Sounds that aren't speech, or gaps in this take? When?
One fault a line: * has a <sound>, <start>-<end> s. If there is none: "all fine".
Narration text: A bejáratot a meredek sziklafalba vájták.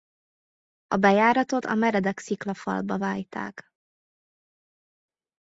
all fine